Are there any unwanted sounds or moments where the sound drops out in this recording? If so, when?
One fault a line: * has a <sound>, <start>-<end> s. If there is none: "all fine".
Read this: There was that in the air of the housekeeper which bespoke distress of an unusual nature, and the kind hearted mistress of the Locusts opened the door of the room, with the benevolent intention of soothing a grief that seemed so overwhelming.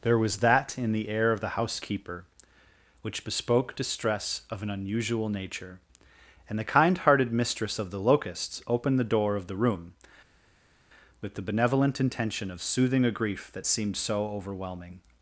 all fine